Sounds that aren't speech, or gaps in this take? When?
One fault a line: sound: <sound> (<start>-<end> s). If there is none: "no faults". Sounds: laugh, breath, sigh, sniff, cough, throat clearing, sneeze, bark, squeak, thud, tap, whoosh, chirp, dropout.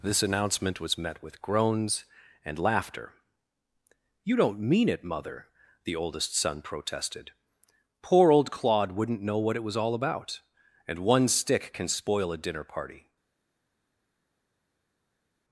no faults